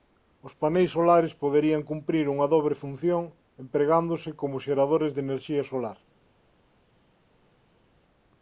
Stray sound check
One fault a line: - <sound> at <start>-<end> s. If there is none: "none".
none